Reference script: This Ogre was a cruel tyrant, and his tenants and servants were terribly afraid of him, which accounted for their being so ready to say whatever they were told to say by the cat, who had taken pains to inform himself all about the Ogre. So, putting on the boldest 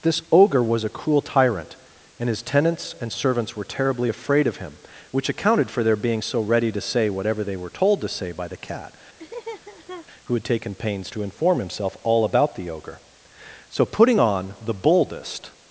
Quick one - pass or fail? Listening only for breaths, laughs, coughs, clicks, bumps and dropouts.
fail